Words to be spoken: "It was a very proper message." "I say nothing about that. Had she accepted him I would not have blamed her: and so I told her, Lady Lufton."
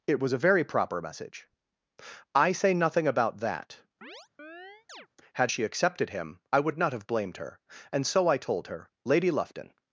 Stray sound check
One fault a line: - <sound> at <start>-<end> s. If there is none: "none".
- chirp at 4.0-5.1 s